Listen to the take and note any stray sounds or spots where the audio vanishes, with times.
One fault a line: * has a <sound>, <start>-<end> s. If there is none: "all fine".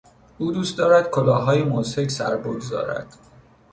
all fine